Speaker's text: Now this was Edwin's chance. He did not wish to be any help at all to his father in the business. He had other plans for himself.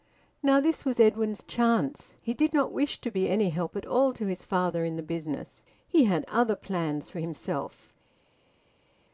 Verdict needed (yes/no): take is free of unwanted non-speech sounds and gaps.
yes